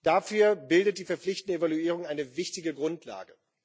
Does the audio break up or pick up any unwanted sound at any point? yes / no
no